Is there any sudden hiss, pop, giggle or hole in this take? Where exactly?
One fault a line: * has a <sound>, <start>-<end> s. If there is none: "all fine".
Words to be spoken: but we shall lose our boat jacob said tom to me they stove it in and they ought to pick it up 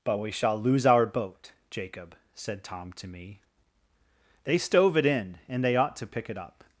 all fine